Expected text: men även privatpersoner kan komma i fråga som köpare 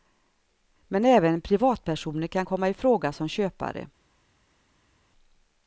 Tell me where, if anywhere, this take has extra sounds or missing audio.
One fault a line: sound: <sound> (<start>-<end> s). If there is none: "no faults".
no faults